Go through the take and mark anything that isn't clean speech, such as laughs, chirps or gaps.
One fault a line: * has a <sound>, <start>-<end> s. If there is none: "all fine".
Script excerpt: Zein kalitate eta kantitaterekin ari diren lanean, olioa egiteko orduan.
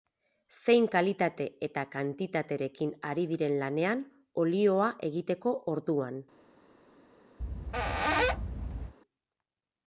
* has a squeak, 7.4-9.0 s